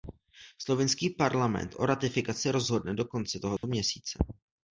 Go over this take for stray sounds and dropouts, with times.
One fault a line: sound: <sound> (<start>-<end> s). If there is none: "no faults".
sound: dropout (3.6-3.6 s)